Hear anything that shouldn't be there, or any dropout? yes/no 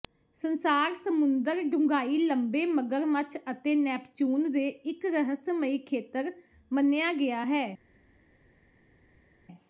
no